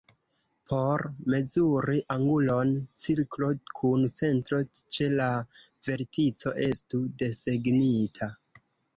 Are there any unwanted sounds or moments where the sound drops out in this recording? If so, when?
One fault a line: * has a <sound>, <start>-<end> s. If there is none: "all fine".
all fine